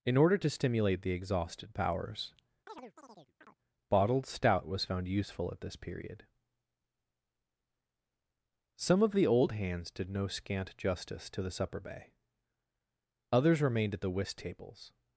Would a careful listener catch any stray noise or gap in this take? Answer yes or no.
yes